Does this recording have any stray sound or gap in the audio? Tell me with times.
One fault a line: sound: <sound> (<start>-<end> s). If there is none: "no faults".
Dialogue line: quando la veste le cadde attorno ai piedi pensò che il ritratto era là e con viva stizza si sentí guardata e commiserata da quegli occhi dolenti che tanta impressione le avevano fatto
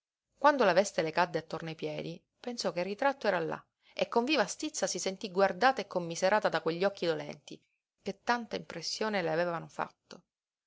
no faults